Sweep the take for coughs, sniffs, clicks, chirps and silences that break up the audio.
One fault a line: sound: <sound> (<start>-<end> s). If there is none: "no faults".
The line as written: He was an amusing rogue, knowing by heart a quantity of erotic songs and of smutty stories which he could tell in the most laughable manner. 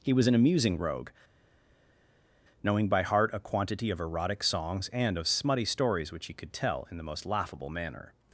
no faults